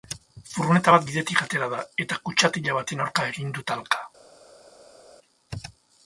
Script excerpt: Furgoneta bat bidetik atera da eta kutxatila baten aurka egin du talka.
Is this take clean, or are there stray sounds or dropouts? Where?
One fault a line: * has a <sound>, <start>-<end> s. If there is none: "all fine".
all fine